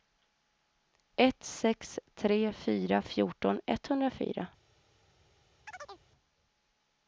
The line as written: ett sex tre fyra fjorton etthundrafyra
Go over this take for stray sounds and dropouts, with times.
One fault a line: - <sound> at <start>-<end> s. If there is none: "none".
- chirp at 5.7-6.0 s